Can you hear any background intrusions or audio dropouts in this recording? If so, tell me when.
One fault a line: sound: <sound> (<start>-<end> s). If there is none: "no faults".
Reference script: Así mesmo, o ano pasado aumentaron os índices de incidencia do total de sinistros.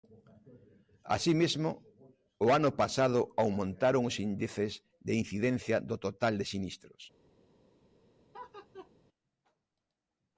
sound: laugh (8.3-8.9 s)